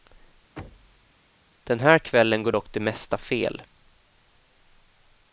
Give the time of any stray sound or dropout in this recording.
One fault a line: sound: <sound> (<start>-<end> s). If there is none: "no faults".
sound: thud (0.6-1.1 s)